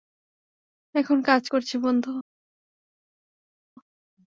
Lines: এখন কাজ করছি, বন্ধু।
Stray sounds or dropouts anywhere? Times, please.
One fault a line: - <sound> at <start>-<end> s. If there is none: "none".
none